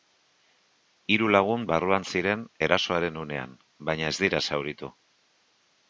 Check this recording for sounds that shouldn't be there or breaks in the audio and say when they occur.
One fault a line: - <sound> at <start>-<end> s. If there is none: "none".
none